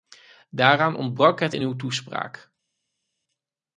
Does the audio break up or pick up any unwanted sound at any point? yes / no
no